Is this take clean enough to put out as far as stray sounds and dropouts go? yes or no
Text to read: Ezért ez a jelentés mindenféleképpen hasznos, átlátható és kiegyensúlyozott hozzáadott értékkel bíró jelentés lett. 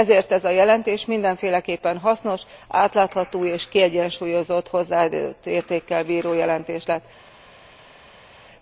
yes